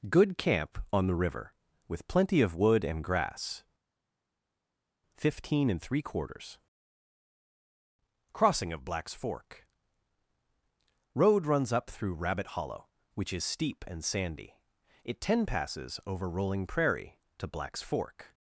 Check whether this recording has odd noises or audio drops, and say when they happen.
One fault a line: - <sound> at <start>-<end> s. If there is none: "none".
none